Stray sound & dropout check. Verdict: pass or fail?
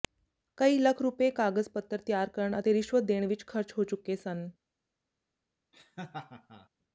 fail